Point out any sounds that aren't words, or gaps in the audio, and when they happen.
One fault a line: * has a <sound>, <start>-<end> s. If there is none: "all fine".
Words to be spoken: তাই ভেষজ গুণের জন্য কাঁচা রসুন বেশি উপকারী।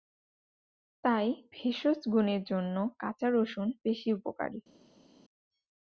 all fine